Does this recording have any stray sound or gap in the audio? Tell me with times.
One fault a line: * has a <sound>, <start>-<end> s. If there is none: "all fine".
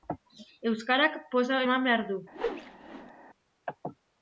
* has a whoosh, 2.3-3.1 s